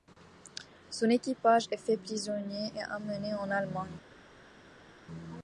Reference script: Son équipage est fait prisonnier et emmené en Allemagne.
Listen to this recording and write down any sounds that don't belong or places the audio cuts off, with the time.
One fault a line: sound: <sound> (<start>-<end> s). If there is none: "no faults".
no faults